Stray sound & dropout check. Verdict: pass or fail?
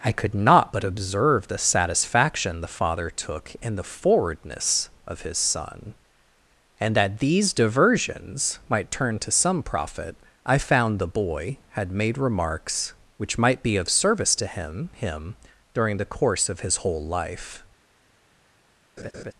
fail